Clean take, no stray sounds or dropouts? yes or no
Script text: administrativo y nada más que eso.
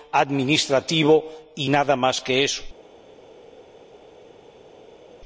yes